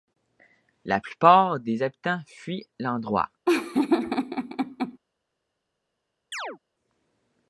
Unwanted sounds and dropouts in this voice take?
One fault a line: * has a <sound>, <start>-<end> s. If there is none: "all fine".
* has a laugh, 3.5-5.0 s
* has a chirp, 6.3-6.6 s